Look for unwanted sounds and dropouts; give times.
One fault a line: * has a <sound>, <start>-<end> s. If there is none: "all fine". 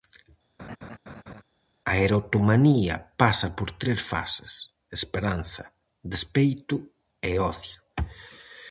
* has a laugh, 0.6-1.4 s